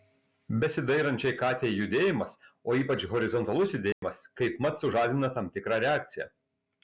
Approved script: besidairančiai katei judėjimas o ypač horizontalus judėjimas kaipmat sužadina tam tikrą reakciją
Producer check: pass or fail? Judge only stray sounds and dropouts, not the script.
fail